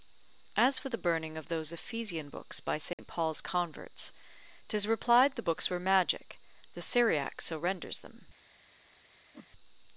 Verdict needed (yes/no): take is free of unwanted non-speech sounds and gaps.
no